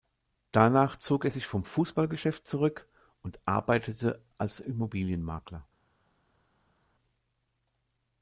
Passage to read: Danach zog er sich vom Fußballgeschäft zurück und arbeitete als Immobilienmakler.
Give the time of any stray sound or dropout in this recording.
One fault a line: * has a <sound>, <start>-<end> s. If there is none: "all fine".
all fine